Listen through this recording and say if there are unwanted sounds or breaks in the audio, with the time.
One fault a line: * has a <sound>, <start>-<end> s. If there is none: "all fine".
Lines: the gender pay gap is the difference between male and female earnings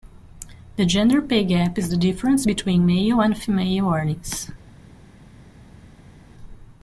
all fine